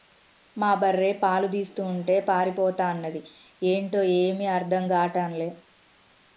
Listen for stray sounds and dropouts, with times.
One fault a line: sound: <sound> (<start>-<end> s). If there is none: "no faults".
no faults